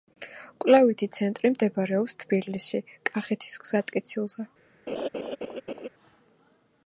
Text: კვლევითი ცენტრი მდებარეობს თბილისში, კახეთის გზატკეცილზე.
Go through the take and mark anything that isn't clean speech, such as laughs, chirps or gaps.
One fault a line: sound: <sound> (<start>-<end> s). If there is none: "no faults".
sound: laugh (4.9-5.9 s)